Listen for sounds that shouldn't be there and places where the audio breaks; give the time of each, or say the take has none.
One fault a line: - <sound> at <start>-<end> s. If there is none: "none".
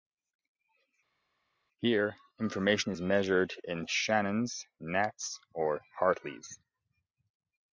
none